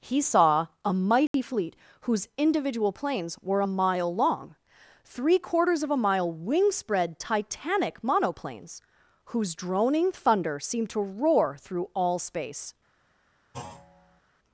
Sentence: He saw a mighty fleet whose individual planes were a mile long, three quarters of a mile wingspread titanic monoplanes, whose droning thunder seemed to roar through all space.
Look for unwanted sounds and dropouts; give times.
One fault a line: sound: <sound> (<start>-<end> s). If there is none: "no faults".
sound: dropout (1.3-1.3 s)
sound: thud (13.5-14.2 s)